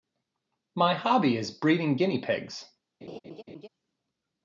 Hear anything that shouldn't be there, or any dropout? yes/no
yes